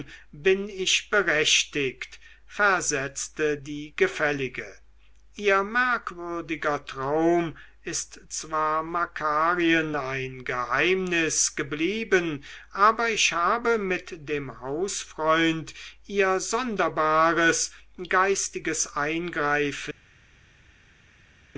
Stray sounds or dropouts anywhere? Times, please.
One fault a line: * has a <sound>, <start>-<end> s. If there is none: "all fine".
all fine